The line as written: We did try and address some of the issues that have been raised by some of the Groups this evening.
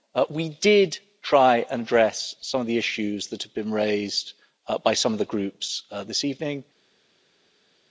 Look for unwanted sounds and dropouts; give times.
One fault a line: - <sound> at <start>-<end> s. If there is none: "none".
none